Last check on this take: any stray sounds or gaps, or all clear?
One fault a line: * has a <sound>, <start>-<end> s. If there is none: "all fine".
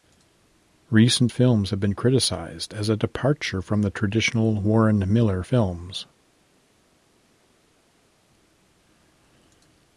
all fine